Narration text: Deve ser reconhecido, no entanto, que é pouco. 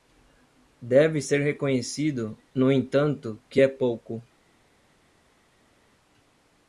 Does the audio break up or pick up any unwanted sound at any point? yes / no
no